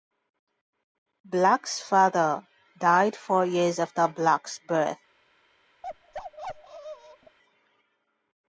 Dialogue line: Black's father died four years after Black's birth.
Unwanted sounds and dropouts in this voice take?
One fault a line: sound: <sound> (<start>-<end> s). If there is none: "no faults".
sound: bark (5.8-7.4 s)